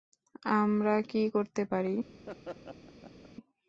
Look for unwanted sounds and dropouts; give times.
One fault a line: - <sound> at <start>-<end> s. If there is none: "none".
- laugh at 2.3-3.3 s